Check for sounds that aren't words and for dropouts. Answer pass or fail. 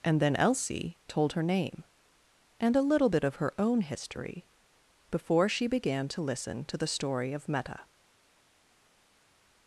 pass